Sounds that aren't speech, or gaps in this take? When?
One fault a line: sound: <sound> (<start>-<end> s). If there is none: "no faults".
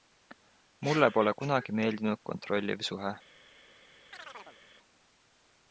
sound: chirp (4.1-4.6 s)